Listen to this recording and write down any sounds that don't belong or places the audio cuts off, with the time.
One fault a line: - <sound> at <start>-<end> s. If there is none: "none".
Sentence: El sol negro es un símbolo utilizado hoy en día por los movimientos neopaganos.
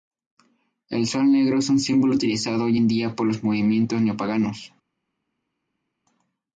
none